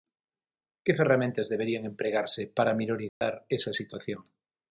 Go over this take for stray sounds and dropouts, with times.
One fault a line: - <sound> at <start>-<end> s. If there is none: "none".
- dropout at 3.1-3.2 s